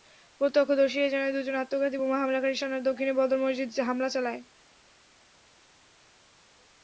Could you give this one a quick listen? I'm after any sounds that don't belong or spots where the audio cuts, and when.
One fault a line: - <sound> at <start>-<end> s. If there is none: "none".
none